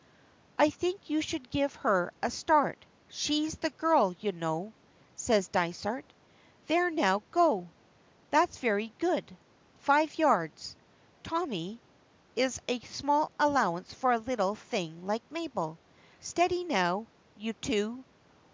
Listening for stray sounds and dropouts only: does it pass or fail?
pass